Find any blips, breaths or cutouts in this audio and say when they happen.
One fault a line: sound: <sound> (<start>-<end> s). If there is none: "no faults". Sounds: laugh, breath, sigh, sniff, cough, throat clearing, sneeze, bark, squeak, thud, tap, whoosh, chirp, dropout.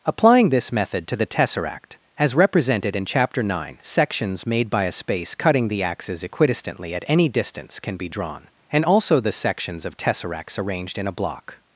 no faults